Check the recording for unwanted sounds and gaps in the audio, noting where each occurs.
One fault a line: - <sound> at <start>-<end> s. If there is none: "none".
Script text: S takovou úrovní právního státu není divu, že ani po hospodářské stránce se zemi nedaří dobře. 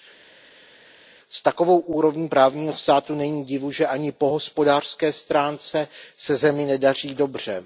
none